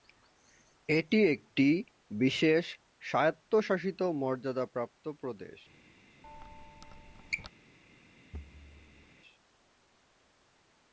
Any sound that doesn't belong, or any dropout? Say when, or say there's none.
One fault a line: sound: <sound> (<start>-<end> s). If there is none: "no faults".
sound: squeak (6.2-7.5 s)
sound: thud (8.3-9.1 s)